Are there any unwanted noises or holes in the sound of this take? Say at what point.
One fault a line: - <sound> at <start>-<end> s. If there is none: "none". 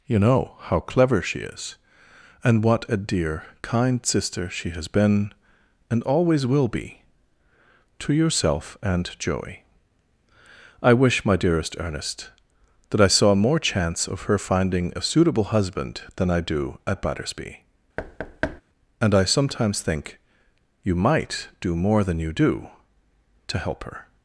- thud at 18.0-18.6 s